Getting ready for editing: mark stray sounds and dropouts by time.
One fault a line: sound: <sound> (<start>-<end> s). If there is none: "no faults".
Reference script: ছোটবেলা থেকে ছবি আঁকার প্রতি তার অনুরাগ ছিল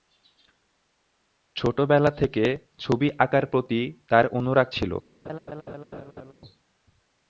sound: laugh (5.2-6.3 s)